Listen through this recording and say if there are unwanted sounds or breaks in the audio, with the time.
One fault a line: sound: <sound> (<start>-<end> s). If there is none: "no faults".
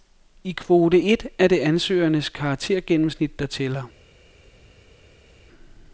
no faults